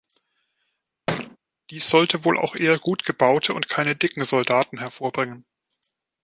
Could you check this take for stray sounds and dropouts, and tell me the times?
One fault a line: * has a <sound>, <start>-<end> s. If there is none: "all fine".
* has a thud, 1.1-1.4 s